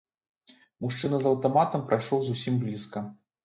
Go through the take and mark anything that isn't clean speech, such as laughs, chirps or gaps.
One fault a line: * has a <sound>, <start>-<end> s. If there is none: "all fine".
all fine